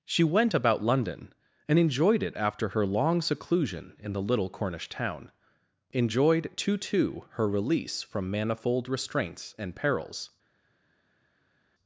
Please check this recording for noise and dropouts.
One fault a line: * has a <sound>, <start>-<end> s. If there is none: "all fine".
all fine